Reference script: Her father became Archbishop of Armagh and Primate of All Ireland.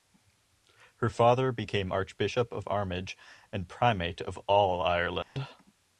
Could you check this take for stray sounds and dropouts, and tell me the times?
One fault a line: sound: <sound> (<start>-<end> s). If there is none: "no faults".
sound: dropout (5.2-5.4 s)